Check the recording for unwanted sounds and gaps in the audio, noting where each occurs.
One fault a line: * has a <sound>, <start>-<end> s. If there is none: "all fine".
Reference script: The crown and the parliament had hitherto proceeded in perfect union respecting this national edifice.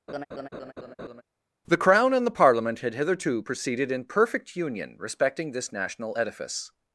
* has a laugh, 0.1-1.2 s